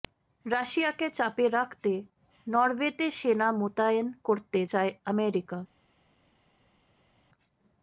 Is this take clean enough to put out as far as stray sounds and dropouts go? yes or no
yes